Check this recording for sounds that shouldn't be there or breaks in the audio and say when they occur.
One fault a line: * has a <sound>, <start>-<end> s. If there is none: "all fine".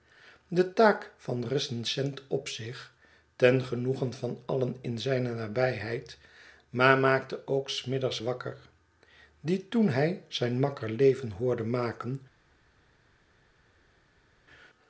all fine